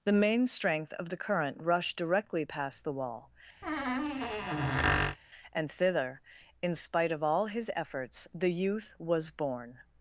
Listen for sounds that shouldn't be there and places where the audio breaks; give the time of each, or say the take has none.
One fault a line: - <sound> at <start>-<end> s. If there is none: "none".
- squeak at 3.6-5.2 s